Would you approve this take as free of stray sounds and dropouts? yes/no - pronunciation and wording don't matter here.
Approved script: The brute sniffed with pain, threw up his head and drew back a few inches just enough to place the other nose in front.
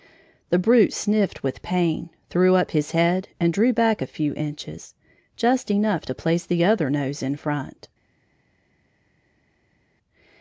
yes